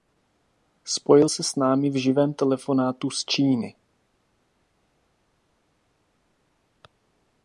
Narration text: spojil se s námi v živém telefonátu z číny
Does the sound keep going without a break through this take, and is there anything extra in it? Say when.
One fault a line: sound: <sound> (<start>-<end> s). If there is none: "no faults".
no faults